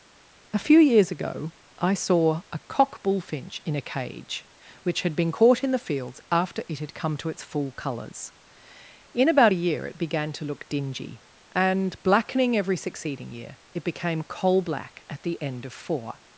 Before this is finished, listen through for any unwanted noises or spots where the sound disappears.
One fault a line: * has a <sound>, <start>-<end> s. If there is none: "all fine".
all fine